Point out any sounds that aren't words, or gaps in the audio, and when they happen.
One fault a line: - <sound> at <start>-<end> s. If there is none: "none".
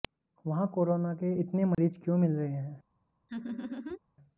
- dropout at 1.7-1.8 s
- laugh at 3.3-4.0 s